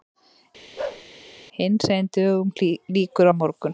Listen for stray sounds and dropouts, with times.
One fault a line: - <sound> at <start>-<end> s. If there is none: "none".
- bark at 0.8-1.1 s